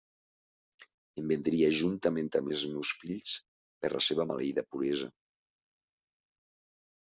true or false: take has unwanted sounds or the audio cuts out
false